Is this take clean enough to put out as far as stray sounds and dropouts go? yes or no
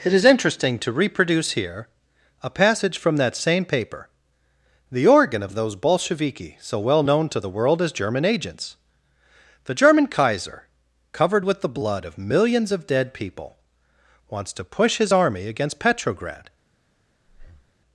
no